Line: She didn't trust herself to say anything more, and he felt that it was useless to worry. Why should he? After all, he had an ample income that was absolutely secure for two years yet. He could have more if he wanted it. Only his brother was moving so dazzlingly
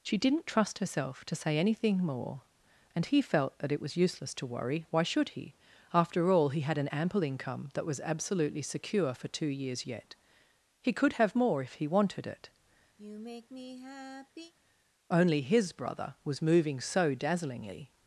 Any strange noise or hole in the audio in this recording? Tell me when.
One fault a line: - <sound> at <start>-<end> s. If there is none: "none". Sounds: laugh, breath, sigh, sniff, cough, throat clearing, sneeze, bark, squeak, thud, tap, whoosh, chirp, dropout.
- sigh at 13.0-14.5 s